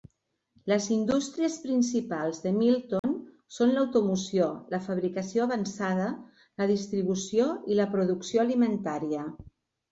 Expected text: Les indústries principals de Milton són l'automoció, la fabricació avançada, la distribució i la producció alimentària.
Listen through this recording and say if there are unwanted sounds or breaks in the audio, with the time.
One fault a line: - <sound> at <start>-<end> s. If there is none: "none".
- dropout at 3.0-3.0 s